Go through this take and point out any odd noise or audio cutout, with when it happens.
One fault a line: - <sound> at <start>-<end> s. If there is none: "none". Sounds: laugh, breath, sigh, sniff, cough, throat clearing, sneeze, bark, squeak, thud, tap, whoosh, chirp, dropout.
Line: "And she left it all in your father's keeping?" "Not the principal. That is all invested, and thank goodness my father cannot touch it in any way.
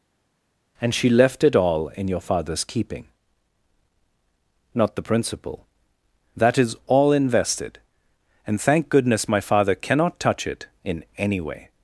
none